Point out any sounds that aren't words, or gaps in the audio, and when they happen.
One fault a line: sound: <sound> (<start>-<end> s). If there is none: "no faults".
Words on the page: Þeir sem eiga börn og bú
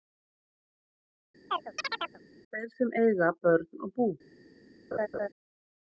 sound: chirp (1.5-2.2 s)
sound: laugh (4.9-5.3 s)